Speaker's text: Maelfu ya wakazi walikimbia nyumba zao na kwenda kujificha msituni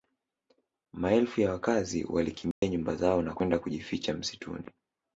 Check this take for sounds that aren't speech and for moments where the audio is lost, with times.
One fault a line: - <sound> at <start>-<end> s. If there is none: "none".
- dropout at 2.5-2.6 s